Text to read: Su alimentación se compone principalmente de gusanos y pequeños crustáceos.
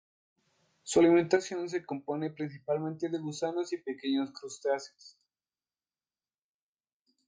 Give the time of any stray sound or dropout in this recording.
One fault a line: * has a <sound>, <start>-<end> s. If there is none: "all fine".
all fine